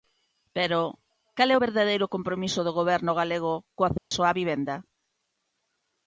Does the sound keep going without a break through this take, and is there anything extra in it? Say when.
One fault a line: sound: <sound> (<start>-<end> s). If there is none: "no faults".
sound: dropout (4.0-4.1 s)